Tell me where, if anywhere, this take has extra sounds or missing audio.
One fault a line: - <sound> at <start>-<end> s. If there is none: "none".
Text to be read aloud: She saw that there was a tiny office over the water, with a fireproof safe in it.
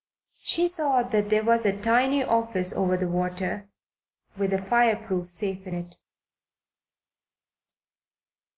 none